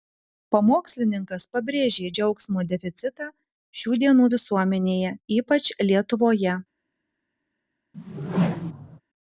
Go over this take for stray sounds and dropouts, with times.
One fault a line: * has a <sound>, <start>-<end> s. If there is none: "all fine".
* has a whoosh, 7.9-9.0 s